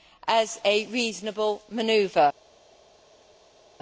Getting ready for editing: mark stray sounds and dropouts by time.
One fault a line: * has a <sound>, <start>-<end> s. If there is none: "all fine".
all fine